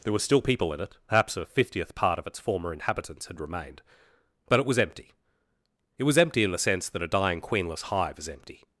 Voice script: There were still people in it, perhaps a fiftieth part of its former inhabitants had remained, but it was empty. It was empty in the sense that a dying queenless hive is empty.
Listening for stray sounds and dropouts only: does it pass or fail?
pass